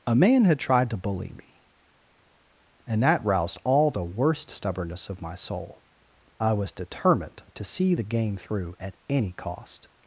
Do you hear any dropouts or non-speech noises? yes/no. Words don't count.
no